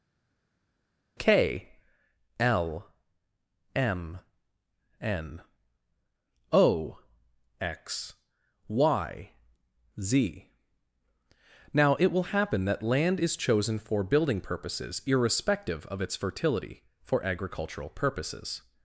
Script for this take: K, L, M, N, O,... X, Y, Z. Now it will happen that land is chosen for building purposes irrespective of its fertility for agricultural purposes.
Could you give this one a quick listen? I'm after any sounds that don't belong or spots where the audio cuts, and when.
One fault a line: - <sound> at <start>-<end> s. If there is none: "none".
none